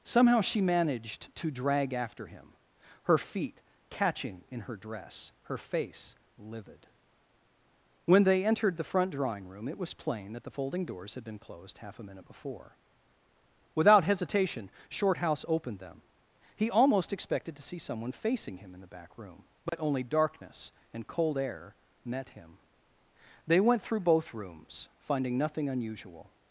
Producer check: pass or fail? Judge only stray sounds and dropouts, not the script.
fail